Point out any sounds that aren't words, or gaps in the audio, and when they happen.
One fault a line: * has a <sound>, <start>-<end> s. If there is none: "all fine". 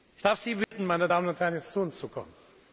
* has a dropout, 0.6-0.7 s